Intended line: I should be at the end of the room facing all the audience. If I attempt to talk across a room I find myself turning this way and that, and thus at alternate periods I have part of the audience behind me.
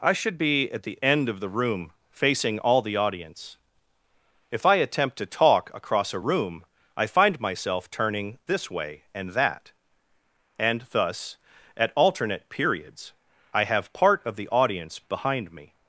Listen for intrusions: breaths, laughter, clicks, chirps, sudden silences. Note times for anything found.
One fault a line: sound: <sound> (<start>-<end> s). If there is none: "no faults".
no faults